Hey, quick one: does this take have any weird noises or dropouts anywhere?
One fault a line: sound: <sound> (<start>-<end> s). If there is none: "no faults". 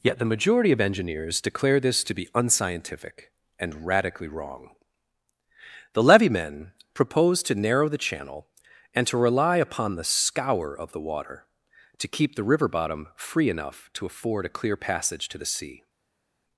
no faults